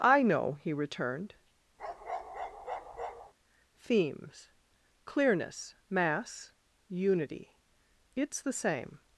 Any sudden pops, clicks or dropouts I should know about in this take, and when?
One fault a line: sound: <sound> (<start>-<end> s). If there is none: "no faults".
sound: bark (1.8-3.3 s)